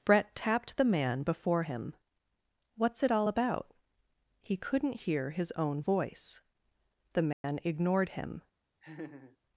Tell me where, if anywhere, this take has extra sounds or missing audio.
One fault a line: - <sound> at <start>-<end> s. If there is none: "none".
- dropout at 7.3-7.4 s
- laugh at 8.8-9.4 s